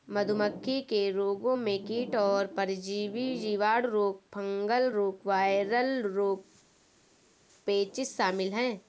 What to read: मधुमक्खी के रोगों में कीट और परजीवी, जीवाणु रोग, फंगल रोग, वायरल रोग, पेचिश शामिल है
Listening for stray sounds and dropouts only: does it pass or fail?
pass